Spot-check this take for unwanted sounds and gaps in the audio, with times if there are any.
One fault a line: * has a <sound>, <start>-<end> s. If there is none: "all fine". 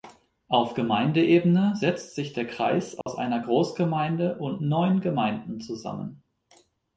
* has a dropout, 3.0-3.1 s